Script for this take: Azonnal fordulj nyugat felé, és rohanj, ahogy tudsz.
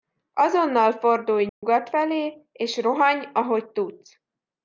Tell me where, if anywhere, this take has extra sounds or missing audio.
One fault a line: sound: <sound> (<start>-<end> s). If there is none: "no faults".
sound: dropout (1.5-1.6 s)